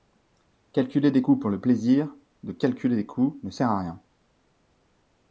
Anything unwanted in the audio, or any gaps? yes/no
no